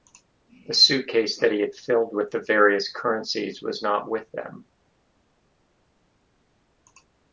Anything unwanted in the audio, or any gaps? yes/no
no